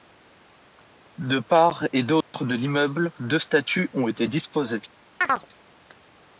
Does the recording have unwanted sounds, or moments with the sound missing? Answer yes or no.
yes